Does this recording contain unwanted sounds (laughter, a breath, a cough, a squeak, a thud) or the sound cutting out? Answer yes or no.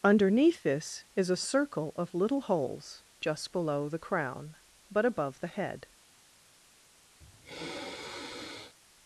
yes